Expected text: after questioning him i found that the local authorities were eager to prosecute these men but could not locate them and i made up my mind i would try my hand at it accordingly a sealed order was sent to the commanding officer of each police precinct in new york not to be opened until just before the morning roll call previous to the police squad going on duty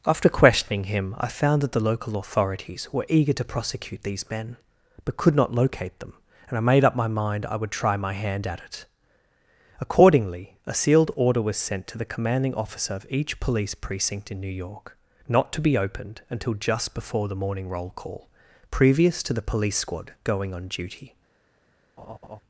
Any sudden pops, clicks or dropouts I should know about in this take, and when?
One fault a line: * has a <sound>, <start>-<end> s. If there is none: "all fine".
* has a laugh, 22.0-22.4 s